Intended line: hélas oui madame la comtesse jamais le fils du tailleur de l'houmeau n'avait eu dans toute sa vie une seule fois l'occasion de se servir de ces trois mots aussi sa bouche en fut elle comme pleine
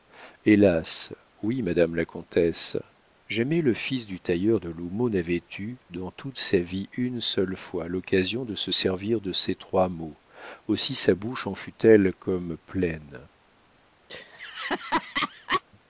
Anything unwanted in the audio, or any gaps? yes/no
yes